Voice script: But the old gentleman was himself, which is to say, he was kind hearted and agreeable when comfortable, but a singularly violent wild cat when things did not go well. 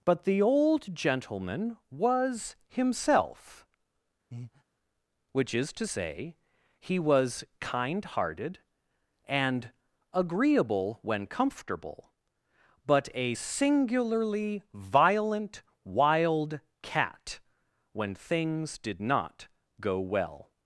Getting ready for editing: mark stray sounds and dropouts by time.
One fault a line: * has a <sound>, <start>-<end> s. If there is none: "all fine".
* has a breath, 4.3-4.6 s